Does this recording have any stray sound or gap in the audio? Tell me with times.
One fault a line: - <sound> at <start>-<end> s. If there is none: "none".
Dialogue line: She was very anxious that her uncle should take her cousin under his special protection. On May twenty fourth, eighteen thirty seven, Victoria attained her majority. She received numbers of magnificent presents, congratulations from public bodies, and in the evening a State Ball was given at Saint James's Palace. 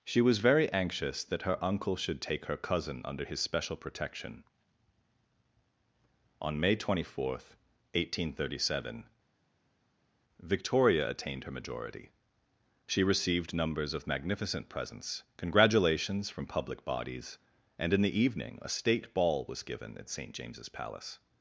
none